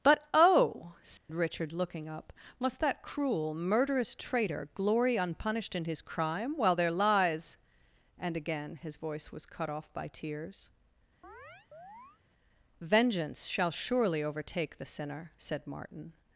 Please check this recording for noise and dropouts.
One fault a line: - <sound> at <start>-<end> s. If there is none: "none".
- dropout at 1.2-1.3 s
- chirp at 11.2-12.2 s